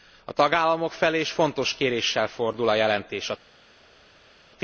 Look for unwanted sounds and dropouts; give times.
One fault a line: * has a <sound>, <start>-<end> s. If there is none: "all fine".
all fine